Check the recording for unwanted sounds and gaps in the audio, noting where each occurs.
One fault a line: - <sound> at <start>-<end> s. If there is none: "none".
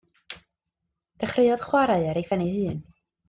none